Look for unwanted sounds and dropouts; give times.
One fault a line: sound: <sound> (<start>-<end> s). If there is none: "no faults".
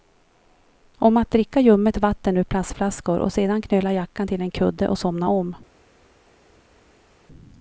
no faults